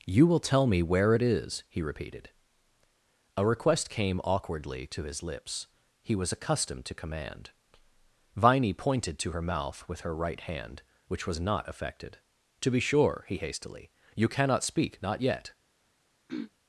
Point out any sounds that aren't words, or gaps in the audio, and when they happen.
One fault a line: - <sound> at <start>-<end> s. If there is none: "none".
- throat clearing at 16.3-16.5 s